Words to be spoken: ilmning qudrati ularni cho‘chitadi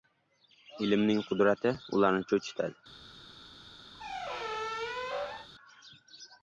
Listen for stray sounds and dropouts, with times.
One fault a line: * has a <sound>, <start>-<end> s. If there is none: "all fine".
* has a squeak, 3.9-5.5 s